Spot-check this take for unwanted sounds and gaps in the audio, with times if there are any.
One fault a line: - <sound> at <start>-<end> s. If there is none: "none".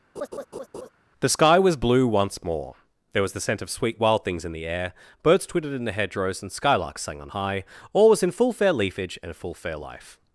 - laugh at 0.2-0.9 s